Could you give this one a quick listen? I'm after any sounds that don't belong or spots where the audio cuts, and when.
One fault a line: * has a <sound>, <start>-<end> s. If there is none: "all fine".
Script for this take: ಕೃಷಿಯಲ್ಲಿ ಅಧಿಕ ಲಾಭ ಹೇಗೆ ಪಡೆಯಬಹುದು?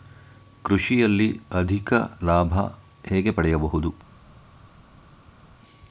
all fine